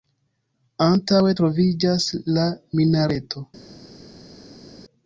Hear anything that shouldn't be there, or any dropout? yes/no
no